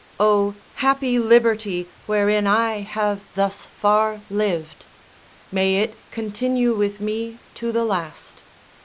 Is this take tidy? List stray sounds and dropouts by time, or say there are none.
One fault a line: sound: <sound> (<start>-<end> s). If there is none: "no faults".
no faults